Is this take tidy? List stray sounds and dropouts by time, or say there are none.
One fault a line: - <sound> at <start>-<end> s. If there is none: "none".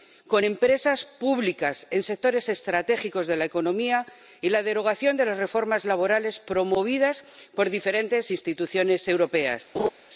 - laugh at 9.7-9.9 s